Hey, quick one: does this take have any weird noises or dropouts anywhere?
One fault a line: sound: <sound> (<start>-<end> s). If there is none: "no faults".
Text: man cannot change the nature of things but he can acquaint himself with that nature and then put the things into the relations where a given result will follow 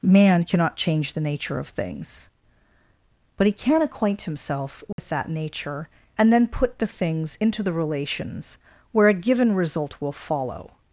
sound: dropout (4.9-5.0 s)